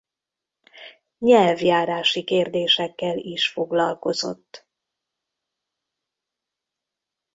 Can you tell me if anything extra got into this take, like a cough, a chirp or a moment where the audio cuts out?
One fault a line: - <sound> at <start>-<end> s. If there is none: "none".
none